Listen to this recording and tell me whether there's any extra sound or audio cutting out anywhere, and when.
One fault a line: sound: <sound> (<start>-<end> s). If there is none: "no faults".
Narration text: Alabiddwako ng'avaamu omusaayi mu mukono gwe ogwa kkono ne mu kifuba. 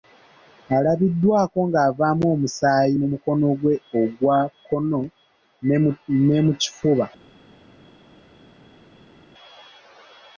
no faults